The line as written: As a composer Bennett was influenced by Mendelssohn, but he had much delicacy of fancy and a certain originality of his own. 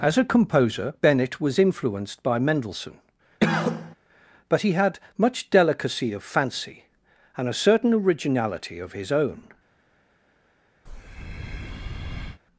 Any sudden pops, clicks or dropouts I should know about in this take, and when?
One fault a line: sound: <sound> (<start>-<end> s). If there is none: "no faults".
sound: cough (3.4-4.0 s)
sound: breath (10.9-12.4 s)